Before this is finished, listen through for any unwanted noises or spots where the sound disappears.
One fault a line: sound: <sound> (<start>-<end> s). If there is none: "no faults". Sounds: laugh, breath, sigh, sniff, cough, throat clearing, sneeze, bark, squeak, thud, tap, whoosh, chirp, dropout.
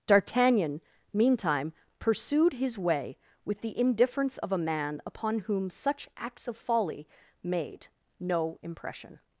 no faults